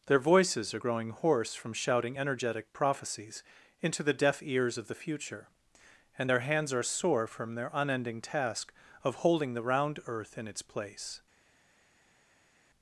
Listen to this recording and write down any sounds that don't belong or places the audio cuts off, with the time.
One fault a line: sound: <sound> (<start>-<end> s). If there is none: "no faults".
no faults